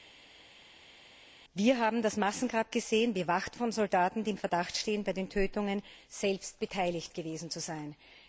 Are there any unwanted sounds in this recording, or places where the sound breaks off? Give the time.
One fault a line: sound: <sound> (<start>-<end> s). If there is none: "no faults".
no faults